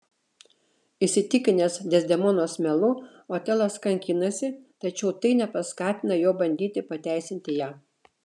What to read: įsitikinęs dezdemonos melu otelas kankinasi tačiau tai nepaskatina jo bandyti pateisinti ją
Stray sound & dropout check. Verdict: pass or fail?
pass